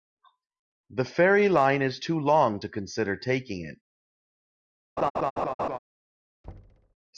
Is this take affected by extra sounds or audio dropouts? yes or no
yes